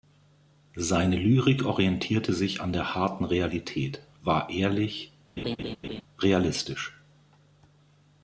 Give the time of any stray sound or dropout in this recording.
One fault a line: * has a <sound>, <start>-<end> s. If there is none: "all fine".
* has a laugh, 5.4-6.0 s